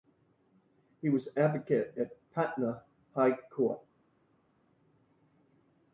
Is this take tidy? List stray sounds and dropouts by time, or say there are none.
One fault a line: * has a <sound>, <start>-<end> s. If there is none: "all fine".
all fine